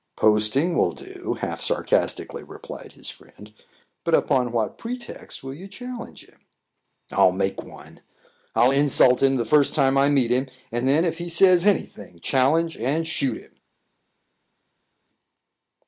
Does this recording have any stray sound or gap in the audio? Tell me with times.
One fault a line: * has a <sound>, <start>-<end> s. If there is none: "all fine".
all fine